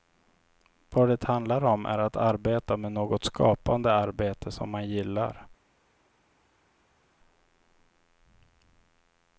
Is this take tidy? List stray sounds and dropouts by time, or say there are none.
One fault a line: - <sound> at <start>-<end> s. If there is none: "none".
none